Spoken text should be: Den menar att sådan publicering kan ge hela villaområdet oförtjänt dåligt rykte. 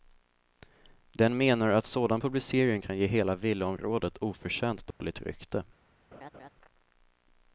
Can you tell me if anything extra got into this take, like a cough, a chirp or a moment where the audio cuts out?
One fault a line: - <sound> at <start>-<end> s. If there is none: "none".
- dropout at 4.9-5.0 s
- laugh at 6.1-6.5 s